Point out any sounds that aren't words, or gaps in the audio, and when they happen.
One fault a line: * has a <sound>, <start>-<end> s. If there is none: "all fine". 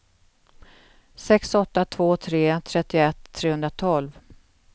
all fine